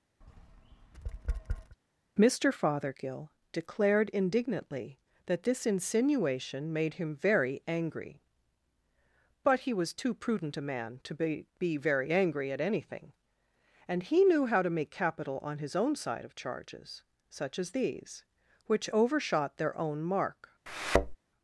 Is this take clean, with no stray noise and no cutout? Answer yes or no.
no